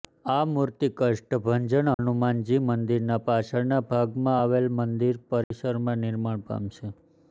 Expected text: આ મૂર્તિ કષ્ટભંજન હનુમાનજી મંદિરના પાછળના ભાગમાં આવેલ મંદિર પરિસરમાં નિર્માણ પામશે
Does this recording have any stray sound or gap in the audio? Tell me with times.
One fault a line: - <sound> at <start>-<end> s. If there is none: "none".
- dropout at 1.9-2.0 s
- dropout at 5.4-5.5 s